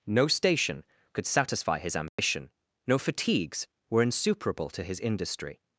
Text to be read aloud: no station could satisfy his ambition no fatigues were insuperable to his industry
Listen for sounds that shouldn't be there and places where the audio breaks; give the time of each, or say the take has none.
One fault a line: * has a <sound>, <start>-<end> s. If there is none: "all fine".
* has a dropout, 2.1-2.2 s